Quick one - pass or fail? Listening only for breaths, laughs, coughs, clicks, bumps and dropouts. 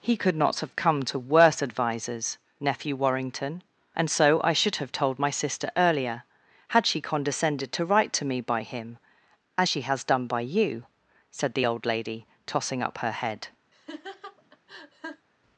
fail